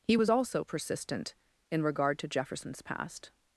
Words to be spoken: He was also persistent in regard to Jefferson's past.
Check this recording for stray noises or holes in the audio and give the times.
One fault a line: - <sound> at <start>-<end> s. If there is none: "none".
none